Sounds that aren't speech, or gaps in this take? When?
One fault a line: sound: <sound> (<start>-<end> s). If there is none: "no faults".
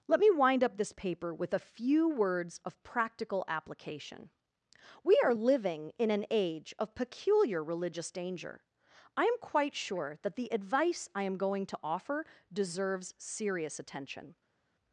no faults